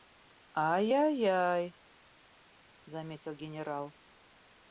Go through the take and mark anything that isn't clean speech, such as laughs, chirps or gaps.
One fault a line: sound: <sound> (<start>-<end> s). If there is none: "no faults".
no faults